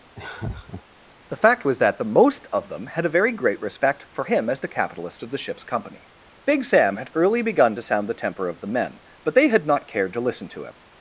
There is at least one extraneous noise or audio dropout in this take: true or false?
true